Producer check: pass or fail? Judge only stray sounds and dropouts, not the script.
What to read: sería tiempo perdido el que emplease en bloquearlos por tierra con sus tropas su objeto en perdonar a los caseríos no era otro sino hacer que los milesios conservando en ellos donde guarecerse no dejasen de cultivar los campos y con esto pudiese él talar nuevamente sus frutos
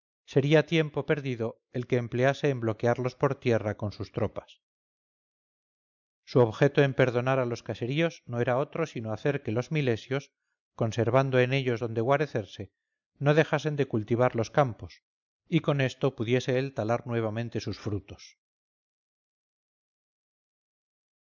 pass